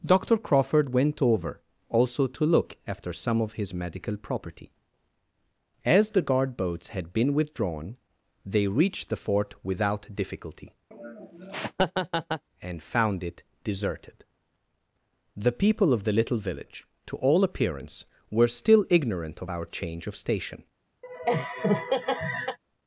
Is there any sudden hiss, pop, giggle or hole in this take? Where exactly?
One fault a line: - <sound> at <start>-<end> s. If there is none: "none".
- laugh at 10.9-12.4 s
- laugh at 21.0-22.6 s